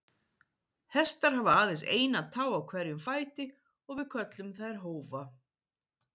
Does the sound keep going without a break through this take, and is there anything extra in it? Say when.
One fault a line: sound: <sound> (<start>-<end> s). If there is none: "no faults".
no faults